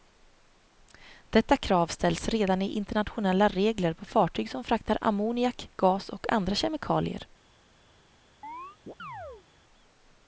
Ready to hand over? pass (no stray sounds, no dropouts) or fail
fail